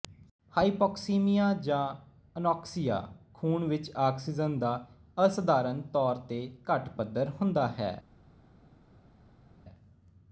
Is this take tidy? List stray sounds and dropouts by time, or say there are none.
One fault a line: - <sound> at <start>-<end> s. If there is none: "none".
none